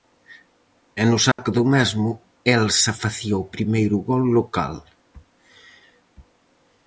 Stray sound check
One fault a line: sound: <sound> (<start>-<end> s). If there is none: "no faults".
sound: dropout (1.3-1.4 s)